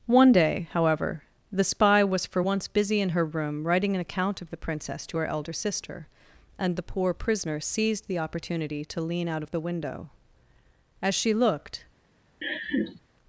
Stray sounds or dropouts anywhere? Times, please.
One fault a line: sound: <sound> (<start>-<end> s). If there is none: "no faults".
sound: laugh (12.4-13.0 s)